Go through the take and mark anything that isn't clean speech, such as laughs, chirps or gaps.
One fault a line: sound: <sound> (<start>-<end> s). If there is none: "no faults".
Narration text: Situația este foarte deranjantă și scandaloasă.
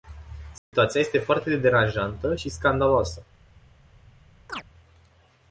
sound: dropout (0.6-0.7 s)
sound: chirp (4.5-4.6 s)